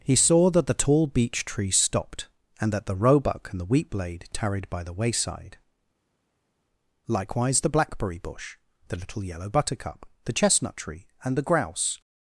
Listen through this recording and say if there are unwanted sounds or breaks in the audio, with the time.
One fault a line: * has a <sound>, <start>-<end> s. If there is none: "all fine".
all fine